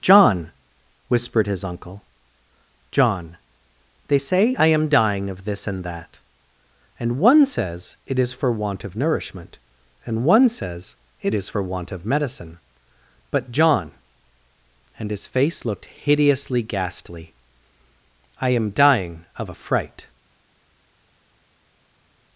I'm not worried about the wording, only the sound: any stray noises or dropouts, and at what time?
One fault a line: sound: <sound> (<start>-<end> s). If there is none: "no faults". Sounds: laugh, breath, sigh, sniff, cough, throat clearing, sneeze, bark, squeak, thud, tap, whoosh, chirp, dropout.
no faults